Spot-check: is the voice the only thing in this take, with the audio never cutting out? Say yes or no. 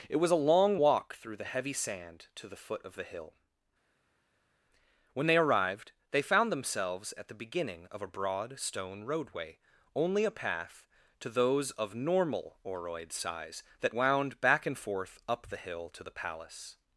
yes